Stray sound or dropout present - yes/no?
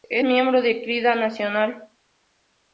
no